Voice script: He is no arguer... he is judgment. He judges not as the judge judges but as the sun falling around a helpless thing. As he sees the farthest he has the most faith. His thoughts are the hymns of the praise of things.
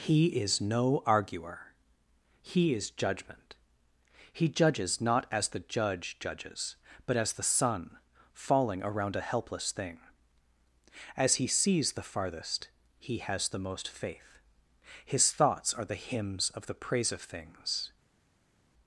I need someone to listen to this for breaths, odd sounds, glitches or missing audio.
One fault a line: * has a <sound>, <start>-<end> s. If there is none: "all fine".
all fine